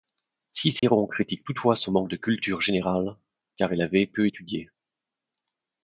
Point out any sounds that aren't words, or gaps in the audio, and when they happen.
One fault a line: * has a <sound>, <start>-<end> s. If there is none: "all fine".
* has a dropout, 0.8-0.8 s